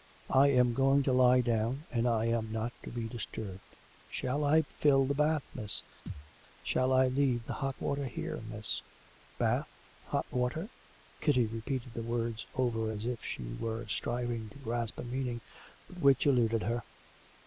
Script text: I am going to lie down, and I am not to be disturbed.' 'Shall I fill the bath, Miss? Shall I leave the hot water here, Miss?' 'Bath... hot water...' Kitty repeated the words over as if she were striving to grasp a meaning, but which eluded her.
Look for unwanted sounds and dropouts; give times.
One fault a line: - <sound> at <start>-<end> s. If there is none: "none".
- thud at 6.1-6.3 s